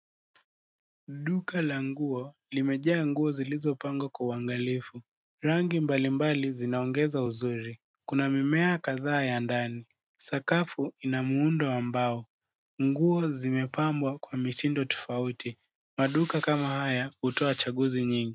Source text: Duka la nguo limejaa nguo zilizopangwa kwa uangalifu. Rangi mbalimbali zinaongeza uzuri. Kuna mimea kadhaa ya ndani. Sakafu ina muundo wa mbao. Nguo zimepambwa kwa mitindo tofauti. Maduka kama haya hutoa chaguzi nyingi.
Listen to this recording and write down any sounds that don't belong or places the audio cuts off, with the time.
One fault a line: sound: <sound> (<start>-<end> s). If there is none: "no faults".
no faults